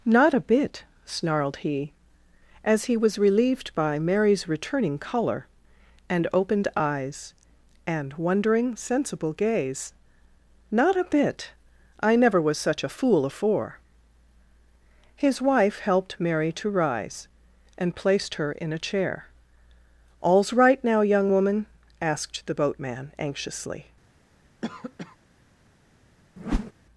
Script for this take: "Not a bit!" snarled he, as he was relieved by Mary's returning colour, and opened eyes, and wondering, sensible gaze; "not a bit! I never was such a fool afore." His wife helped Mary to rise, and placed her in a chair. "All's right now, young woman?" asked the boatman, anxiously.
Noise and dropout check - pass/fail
fail